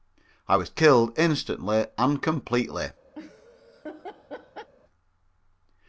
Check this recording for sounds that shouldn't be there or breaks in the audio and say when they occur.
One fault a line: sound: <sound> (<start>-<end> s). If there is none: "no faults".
sound: laugh (3.2-4.7 s)